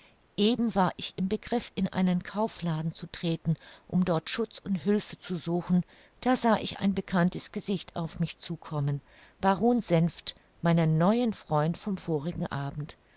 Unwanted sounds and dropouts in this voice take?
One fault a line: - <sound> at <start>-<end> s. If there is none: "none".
none